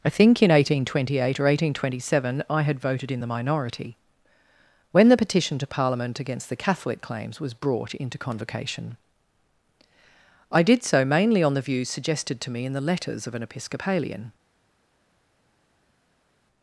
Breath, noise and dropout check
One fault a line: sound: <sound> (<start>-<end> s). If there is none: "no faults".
no faults